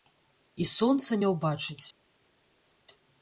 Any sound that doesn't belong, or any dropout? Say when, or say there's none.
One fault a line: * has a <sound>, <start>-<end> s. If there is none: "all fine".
all fine